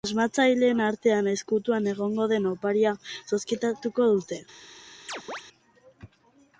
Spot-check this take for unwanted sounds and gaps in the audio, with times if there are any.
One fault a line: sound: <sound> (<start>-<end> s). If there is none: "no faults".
sound: chirp (5.1-5.4 s)